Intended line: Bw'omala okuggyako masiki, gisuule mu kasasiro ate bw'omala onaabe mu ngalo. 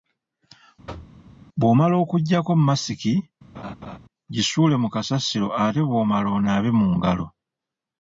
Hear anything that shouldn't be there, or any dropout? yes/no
yes